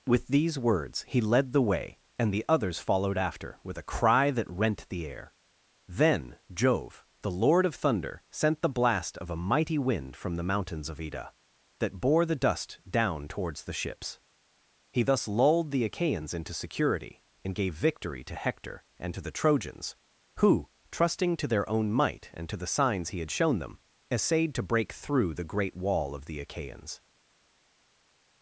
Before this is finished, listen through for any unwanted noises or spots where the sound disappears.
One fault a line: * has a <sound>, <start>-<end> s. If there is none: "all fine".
all fine